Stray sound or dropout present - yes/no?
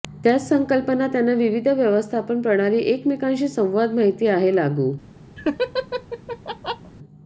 yes